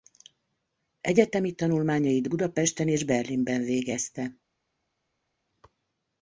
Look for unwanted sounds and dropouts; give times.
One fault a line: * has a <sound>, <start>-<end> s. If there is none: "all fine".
all fine